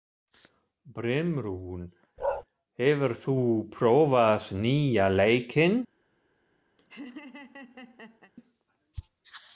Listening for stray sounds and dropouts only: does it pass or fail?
fail